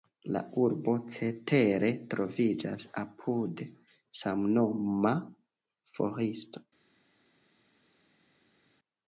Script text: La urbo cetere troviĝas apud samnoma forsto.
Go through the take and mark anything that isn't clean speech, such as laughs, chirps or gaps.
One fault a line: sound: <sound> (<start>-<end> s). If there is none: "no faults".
no faults